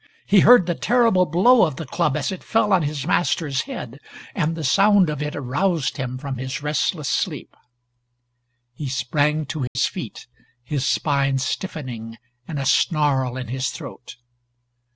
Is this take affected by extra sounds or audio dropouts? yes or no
yes